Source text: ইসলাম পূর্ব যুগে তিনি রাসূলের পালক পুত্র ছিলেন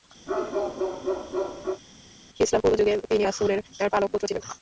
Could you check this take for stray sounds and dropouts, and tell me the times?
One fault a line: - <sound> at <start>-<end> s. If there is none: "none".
- bark at 0.3-1.8 s